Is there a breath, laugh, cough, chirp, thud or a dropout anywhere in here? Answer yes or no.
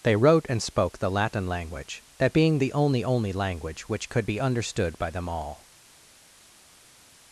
no